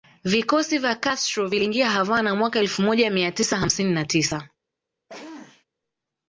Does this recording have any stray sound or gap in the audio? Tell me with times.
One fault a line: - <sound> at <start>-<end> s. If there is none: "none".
- sneeze at 5.1-5.6 s